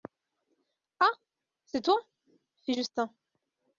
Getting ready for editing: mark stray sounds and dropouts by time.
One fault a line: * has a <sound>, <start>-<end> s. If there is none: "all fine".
all fine